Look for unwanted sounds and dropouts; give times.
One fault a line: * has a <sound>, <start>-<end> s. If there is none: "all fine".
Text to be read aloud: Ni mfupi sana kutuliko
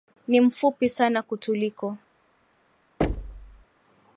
* has a thud, 3.0-3.7 s